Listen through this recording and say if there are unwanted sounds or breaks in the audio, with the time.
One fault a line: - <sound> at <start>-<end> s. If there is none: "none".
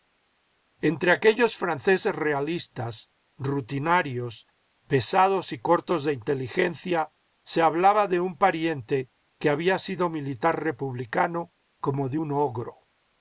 none